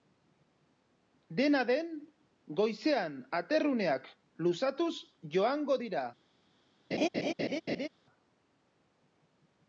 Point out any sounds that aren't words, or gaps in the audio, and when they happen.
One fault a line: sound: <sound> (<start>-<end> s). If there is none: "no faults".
sound: laugh (6.9-7.9 s)